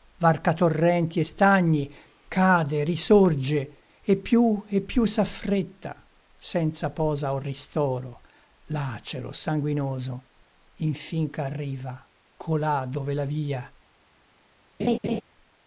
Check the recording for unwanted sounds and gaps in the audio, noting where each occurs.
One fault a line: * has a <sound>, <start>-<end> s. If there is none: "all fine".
* has a laugh, 14.8-15.2 s